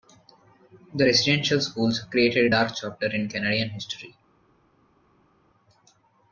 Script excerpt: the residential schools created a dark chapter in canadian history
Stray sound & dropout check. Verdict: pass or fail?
pass